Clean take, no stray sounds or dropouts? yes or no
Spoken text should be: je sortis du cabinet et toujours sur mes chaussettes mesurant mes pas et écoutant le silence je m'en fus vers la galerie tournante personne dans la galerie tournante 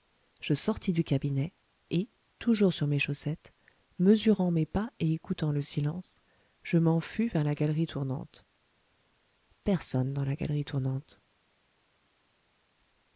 yes